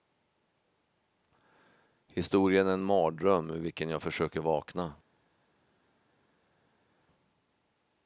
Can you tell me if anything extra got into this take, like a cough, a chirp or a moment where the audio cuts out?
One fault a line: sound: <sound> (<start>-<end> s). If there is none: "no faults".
no faults